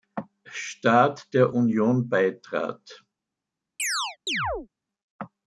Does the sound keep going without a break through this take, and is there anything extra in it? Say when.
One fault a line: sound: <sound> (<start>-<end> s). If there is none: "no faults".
sound: chirp (3.8-4.7 s)